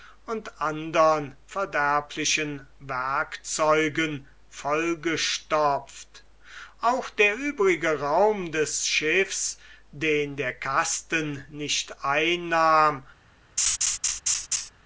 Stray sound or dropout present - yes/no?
yes